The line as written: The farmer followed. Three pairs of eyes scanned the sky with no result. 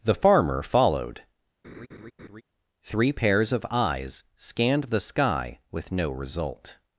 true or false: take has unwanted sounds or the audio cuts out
true